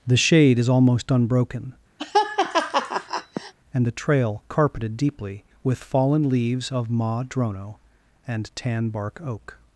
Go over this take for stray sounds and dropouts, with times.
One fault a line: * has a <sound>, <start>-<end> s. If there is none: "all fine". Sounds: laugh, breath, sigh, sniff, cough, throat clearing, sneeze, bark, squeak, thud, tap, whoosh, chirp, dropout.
* has a laugh, 2.0-3.5 s